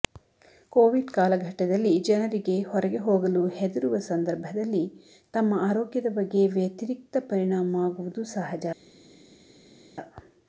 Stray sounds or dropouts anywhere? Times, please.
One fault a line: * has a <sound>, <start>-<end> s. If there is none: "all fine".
all fine